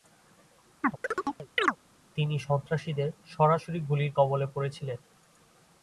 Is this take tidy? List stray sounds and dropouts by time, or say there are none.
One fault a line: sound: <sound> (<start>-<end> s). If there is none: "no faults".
sound: chirp (0.8-1.8 s)